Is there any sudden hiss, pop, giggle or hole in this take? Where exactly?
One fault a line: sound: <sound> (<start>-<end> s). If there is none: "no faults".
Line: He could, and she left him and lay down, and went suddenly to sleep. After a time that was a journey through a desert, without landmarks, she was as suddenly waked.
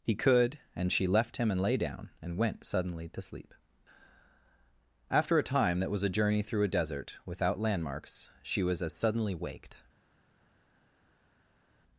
no faults